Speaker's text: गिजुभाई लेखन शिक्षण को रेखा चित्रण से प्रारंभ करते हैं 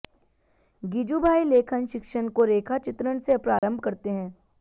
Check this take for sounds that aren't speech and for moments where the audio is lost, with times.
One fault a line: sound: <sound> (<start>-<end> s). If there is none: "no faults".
sound: dropout (3.6-3.6 s)